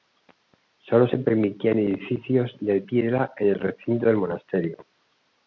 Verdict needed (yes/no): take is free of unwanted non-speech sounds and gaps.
yes